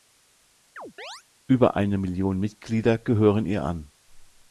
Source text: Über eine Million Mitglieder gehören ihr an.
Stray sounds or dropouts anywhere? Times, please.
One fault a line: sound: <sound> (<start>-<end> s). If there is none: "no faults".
sound: chirp (0.8-1.2 s)